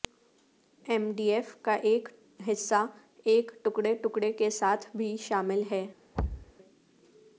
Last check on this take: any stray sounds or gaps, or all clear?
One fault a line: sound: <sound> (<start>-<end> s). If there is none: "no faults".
sound: thud (6.1-6.5 s)